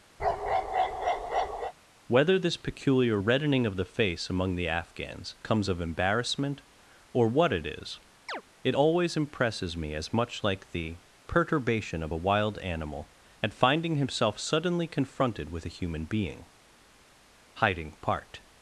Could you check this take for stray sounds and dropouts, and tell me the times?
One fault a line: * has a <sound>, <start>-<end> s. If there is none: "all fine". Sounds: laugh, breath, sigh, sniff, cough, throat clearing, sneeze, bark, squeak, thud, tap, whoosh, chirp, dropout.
* has a bark, 0.2-1.7 s
* has a chirp, 8.3-8.4 s